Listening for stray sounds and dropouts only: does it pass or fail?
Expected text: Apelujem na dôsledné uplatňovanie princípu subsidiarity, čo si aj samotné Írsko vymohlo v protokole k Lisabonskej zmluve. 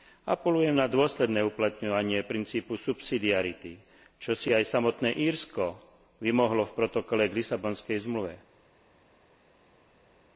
pass